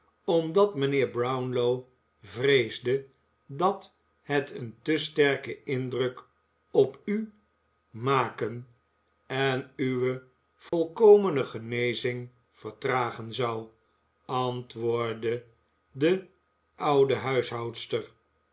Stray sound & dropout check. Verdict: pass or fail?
fail